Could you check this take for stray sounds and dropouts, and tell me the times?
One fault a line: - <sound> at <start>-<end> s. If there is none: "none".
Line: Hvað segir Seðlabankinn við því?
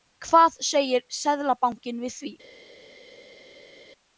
none